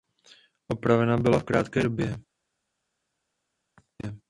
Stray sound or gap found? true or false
false